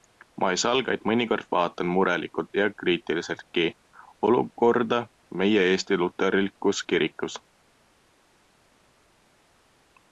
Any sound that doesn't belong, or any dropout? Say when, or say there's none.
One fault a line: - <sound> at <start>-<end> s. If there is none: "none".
none